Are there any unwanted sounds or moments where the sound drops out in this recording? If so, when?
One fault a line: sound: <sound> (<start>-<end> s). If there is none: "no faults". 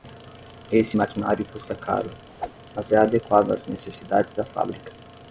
sound: whoosh (2.4-2.5 s)